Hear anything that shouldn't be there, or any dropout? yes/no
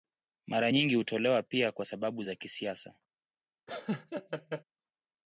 yes